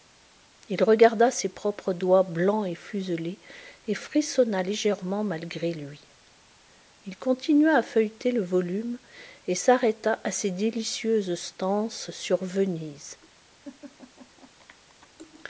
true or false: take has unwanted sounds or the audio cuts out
true